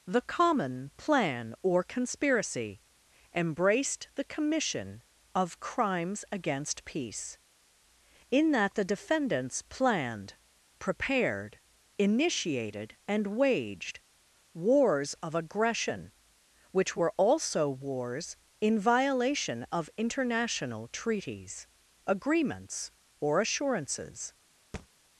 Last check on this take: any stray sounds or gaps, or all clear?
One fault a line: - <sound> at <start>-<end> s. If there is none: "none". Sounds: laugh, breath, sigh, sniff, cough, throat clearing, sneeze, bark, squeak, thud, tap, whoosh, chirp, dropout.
- thud at 24.7-24.9 s